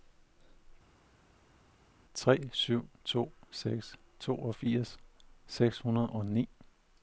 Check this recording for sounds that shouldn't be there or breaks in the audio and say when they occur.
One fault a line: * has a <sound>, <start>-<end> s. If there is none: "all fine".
all fine